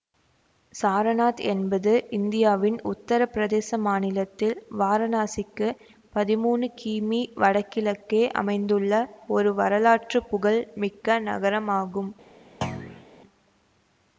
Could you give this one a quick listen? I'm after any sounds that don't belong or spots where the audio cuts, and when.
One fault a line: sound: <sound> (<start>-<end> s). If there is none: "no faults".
sound: thud (12.6-13.1 s)